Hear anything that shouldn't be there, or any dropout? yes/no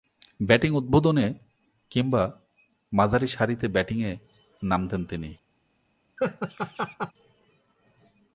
yes